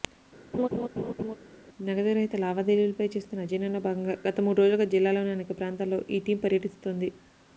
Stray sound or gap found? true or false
true